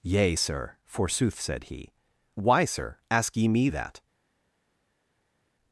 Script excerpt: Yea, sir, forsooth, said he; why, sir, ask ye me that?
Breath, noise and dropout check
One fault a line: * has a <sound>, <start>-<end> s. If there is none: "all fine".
all fine